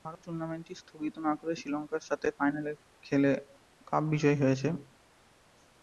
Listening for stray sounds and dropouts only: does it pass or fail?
pass